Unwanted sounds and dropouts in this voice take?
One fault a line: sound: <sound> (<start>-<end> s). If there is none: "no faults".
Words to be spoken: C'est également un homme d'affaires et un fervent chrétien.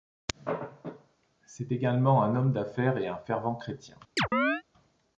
sound: chirp (4.2-4.6 s)